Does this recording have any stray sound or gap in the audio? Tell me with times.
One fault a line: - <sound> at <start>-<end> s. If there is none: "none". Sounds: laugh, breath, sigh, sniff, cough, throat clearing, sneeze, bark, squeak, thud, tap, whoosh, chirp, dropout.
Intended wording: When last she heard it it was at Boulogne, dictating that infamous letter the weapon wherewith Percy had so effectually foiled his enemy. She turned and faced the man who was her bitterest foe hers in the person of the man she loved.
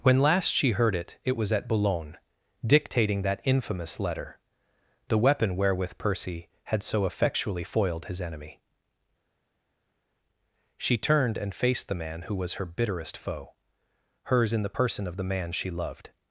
none